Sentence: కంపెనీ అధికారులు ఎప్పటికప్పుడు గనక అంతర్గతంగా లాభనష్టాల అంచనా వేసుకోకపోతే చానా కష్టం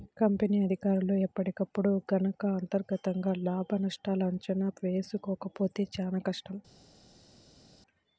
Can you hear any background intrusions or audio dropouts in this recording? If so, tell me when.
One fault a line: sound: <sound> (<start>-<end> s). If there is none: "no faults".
no faults